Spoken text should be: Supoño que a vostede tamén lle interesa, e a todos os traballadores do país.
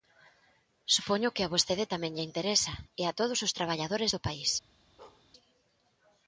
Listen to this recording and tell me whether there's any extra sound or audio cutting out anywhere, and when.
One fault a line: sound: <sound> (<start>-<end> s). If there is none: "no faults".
sound: bark (5.0-5.3 s)